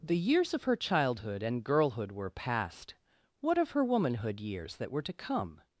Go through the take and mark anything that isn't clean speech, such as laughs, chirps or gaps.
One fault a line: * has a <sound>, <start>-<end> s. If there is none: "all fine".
all fine